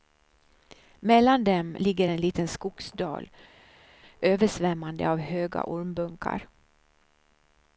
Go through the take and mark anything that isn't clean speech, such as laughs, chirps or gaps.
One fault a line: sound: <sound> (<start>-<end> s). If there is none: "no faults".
no faults